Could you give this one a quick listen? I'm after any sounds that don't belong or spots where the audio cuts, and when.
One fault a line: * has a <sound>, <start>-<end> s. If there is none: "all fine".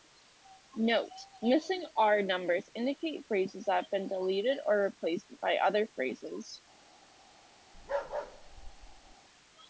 * has a bark, 7.7-9.2 s